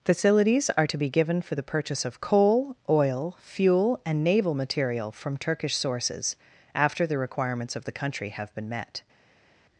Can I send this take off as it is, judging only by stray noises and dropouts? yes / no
yes